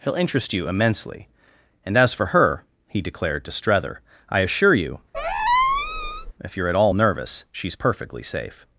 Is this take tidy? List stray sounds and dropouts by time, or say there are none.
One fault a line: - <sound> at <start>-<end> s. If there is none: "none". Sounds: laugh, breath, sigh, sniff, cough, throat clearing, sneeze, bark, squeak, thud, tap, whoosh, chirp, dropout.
- squeak at 5.1-6.3 s